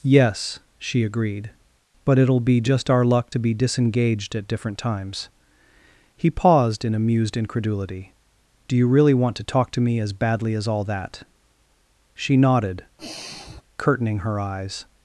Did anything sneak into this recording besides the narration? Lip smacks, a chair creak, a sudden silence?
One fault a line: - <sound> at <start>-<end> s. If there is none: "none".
- sigh at 13.0-13.6 s